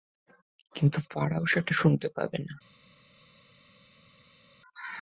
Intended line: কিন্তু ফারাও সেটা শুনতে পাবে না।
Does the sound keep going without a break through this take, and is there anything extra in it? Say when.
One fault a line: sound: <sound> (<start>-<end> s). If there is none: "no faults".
no faults